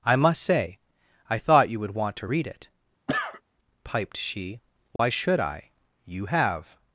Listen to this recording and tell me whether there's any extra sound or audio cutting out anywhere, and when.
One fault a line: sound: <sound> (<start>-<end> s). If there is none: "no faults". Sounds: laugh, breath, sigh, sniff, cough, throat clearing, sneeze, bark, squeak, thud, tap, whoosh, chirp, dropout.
sound: cough (3.1-3.4 s)
sound: dropout (5.0-5.0 s)